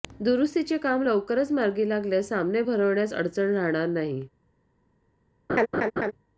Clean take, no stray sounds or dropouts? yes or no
no